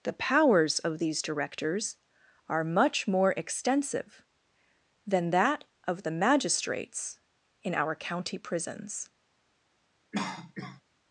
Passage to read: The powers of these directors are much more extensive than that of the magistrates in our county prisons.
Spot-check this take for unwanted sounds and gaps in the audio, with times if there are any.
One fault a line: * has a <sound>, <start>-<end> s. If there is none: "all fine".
* has a cough, 10.1-10.8 s